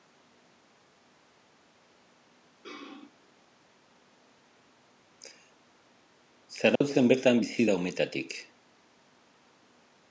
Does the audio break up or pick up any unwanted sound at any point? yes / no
yes